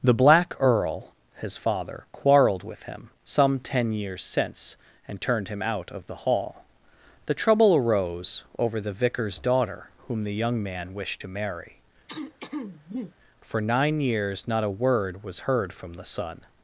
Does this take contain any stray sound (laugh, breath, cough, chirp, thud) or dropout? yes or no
yes